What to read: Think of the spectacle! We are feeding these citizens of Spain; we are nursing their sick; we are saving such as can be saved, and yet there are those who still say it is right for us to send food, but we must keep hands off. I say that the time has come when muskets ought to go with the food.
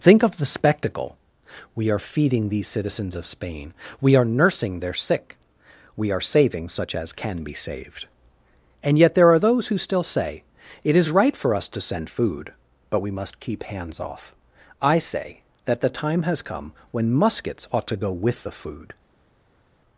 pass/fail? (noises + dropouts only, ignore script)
pass